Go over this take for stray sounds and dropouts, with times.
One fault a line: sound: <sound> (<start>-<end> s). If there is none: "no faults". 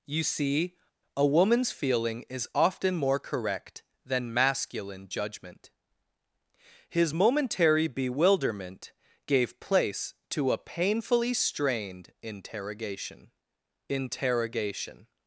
no faults